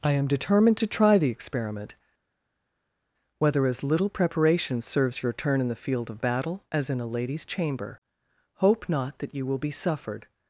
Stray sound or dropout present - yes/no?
no